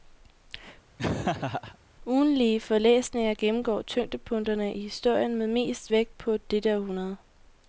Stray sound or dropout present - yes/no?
yes